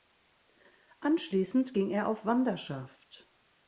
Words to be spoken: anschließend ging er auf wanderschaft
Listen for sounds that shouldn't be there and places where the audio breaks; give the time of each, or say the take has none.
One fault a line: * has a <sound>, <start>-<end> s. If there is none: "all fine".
all fine